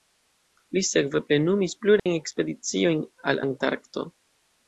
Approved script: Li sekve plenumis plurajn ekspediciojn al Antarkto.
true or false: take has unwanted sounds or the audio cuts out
true